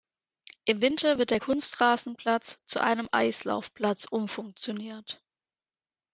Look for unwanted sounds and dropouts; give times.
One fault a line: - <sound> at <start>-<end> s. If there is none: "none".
none